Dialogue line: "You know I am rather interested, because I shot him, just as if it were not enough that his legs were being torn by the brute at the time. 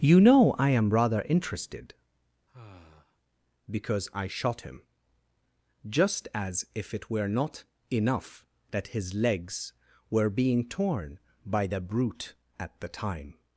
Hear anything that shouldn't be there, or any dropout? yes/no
yes